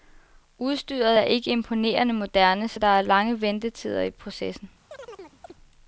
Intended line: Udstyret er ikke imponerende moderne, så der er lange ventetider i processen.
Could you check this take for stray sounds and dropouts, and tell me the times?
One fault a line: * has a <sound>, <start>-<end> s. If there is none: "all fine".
* has a chirp, 4.9-5.5 s